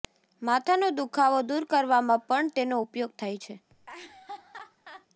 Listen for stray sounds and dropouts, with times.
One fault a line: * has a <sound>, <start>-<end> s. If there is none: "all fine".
* has a laugh, 3.7-5.1 s